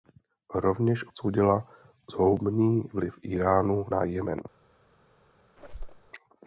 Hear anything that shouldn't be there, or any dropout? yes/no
yes